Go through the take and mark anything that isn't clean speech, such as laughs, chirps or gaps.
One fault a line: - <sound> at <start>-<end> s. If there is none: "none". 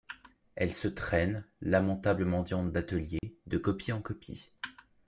- dropout at 3.2-3.2 s